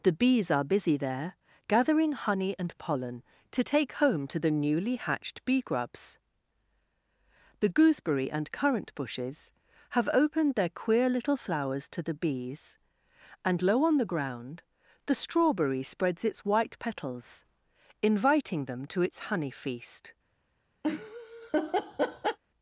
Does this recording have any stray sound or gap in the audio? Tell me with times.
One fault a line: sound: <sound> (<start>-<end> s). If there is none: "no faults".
sound: laugh (20.8-22.4 s)